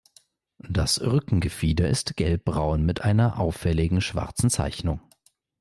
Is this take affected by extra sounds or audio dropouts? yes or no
no